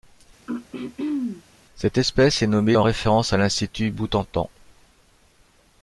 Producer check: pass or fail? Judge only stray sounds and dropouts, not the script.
fail